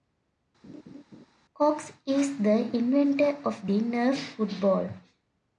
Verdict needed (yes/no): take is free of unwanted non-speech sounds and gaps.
no